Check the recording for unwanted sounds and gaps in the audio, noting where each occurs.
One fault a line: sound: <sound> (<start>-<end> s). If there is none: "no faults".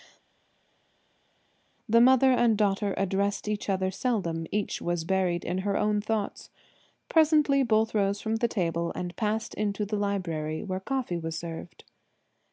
no faults